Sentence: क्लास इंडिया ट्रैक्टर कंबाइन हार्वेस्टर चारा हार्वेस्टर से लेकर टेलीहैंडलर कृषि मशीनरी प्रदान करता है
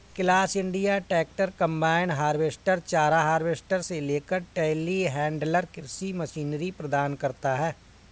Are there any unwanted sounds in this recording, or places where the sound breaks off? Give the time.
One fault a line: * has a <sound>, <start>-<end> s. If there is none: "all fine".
all fine